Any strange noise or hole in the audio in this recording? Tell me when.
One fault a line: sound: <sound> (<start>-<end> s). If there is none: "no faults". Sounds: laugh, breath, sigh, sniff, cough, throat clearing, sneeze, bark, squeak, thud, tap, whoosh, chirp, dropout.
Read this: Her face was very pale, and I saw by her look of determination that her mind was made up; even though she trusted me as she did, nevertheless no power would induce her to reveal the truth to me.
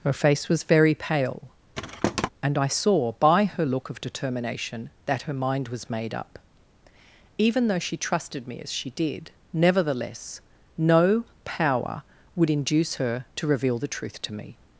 sound: thud (1.7-2.3 s)